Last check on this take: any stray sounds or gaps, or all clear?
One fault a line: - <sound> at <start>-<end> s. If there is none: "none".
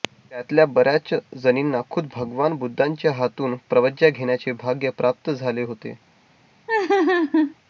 - laugh at 6.7-7.5 s